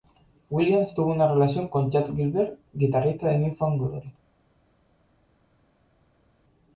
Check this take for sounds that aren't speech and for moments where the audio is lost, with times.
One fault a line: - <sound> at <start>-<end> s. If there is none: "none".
none